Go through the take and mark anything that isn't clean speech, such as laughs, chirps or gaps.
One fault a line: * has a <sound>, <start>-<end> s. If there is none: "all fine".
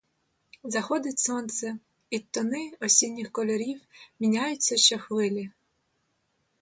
all fine